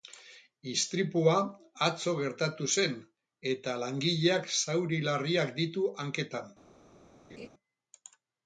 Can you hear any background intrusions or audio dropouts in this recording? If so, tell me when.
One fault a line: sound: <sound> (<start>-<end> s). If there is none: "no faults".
sound: laugh (7.3-7.5 s)